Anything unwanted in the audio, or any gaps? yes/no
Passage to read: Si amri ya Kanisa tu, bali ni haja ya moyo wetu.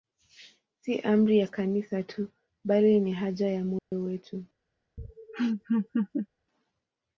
yes